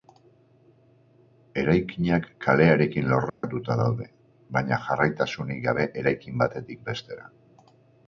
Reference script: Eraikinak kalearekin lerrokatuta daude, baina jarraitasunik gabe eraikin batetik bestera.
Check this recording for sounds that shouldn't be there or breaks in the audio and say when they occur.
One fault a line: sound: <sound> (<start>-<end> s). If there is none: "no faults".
sound: dropout (3.3-3.4 s)